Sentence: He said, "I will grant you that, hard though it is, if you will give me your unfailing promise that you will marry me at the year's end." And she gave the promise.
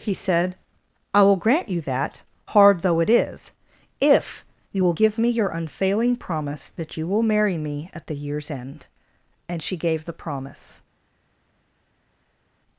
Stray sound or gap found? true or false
false